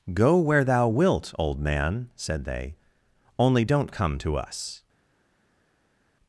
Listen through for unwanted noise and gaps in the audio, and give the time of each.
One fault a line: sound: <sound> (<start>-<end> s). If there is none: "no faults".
no faults